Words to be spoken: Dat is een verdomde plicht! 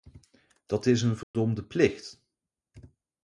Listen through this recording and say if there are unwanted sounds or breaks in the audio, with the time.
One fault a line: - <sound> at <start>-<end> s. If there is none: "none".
- dropout at 1.2-1.3 s